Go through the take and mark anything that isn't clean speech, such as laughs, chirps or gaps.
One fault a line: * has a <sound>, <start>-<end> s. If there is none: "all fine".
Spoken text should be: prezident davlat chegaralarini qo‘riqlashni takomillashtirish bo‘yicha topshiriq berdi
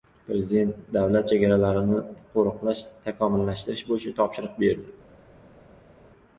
all fine